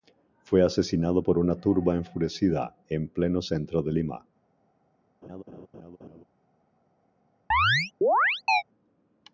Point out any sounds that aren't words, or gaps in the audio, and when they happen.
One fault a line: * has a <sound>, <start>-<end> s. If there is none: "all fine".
* has a laugh, 5.2-6.2 s
* has a chirp, 7.5-8.6 s